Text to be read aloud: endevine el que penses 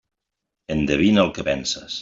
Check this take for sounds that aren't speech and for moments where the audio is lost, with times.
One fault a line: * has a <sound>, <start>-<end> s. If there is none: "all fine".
all fine